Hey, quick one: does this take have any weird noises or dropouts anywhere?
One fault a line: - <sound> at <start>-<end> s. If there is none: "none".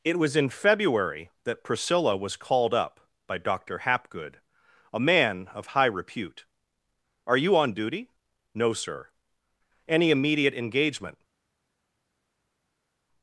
none